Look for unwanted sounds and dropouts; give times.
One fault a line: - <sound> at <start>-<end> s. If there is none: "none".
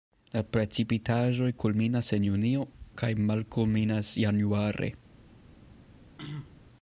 - throat clearing at 6.2-6.6 s